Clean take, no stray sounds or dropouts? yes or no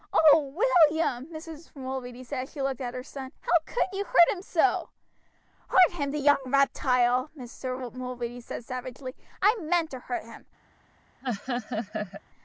no